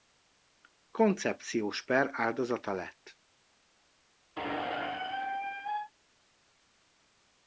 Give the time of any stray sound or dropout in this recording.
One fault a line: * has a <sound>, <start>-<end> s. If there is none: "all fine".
* has a squeak, 4.4-5.9 s